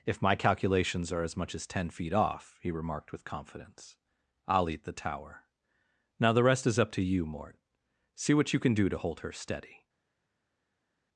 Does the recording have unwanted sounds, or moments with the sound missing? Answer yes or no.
no